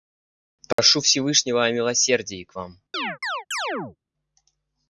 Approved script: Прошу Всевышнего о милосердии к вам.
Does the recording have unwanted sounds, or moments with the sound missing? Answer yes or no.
yes